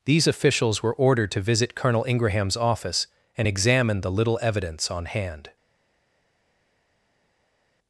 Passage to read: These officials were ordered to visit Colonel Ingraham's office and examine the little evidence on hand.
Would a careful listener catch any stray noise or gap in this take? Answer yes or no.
no